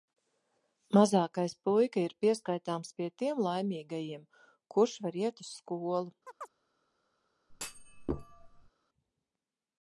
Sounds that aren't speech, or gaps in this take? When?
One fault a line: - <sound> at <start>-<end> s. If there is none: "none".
- chirp at 6.3-6.5 s
- thud at 7.5-8.7 s